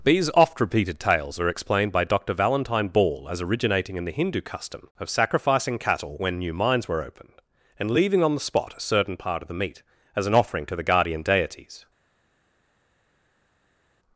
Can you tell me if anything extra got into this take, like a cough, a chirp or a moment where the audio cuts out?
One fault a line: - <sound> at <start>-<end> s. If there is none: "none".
none